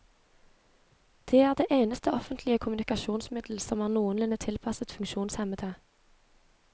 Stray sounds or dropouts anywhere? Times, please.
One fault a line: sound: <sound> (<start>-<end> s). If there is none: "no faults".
no faults